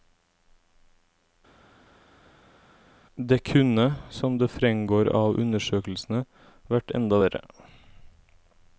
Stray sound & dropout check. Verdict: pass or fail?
pass